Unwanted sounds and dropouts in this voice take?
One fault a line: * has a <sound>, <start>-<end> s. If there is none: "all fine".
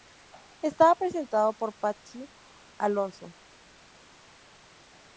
all fine